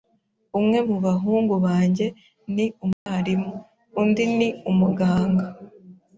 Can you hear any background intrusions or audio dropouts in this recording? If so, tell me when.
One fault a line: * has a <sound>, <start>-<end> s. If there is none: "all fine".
* has a dropout, 2.9-3.1 s